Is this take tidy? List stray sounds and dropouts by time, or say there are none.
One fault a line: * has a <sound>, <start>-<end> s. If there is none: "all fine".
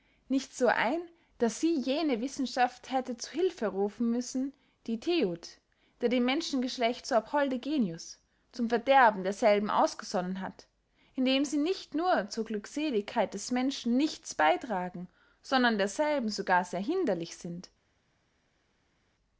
all fine